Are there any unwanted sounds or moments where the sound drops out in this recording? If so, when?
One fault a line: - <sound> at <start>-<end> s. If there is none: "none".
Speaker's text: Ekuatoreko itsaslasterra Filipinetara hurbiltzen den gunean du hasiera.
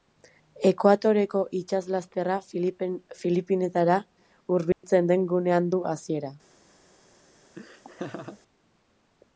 - dropout at 4.7-4.8 s
- laugh at 7.6-8.4 s